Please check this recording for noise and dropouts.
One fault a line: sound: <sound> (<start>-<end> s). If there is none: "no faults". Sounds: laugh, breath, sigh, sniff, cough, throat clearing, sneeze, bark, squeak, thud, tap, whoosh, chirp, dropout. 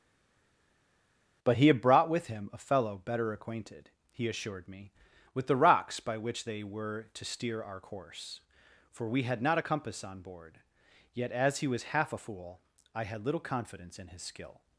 no faults